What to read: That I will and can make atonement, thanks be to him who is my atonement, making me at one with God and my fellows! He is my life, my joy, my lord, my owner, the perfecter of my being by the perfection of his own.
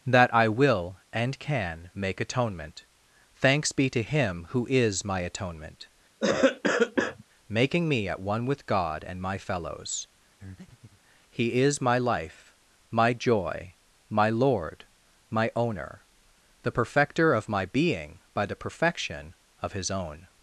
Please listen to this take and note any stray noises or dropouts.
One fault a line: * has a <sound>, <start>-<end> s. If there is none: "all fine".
* has a cough, 6.2-7.2 s
* has a breath, 10.4-11.0 s